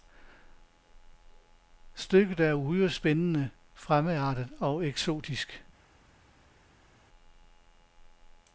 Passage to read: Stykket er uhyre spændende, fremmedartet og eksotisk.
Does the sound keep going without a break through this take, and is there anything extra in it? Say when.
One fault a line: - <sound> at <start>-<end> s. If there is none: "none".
none